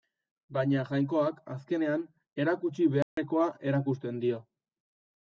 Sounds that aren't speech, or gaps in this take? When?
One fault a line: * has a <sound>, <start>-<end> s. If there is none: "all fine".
* has a dropout, 3.0-3.2 s